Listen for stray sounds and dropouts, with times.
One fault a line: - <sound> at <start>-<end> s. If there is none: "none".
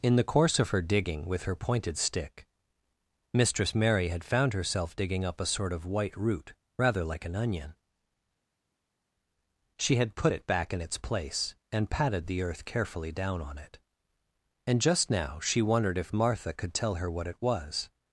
none